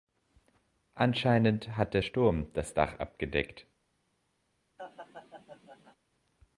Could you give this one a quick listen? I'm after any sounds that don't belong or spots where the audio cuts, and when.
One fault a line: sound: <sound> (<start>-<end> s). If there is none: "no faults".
sound: laugh (4.8-6.0 s)